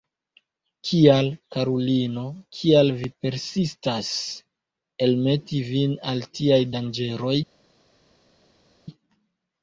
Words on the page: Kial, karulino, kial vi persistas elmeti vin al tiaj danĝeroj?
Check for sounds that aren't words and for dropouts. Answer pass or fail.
pass